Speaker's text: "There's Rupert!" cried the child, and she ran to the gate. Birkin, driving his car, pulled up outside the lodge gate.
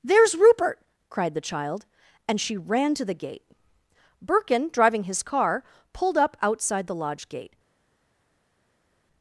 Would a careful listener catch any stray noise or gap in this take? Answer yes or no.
no